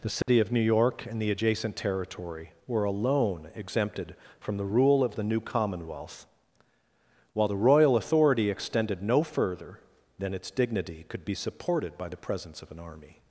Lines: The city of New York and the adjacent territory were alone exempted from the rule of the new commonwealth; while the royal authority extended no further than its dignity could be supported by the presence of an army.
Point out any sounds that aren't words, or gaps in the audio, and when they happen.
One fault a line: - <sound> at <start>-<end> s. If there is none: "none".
- dropout at 0.2-0.3 s